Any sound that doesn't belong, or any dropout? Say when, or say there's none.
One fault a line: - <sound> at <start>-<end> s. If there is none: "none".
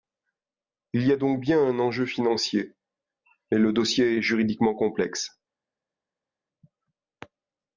none